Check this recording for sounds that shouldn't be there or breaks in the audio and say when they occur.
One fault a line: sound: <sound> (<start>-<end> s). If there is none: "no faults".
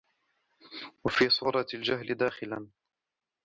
no faults